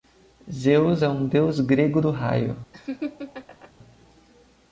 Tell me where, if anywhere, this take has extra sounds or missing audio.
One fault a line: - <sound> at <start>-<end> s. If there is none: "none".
- laugh at 2.7-3.7 s